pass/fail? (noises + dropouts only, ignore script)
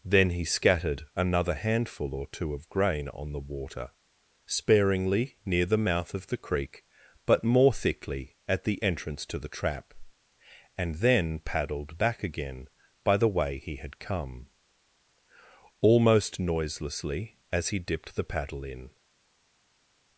pass